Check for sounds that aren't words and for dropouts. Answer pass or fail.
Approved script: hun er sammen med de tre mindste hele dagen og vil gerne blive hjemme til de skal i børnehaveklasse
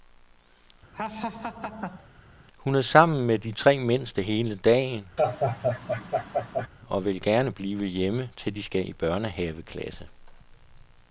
fail